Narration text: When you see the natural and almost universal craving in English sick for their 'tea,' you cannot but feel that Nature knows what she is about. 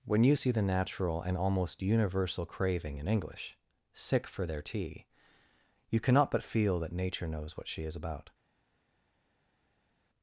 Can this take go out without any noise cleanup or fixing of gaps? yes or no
yes